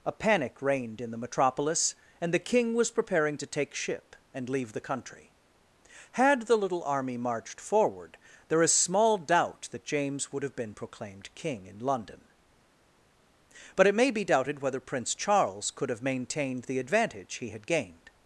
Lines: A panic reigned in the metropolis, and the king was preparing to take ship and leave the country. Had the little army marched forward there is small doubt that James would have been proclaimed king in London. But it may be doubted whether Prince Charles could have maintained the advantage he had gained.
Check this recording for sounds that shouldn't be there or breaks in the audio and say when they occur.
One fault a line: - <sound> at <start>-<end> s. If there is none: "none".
none